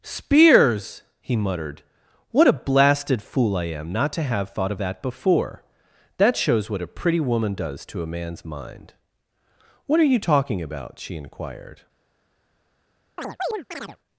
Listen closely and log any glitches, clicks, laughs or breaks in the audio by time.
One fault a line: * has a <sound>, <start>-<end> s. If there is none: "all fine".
* has a chirp, 13.2-14.0 s